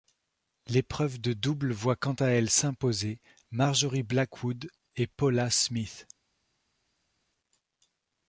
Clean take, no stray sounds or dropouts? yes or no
yes